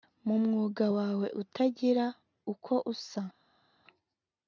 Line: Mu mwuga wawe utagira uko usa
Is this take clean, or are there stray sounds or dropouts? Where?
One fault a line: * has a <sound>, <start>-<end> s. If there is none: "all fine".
all fine